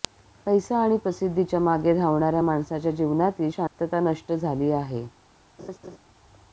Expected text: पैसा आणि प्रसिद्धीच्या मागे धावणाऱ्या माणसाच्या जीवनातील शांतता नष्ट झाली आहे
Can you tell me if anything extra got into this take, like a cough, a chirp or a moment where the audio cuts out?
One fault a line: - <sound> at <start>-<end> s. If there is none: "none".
- dropout at 3.7-3.8 s
- laugh at 5.6-6.0 s